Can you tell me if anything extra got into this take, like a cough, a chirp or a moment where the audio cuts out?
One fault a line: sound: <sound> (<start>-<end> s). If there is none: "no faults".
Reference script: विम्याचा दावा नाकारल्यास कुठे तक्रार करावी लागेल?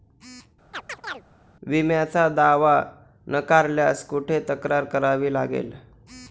sound: chirp (0.7-1.2 s)